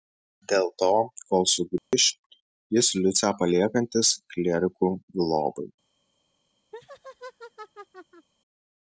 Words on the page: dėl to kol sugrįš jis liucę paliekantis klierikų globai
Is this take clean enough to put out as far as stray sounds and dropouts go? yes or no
no